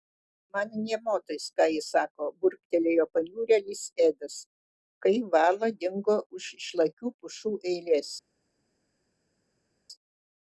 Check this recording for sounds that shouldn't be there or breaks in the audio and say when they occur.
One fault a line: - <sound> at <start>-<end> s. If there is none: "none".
none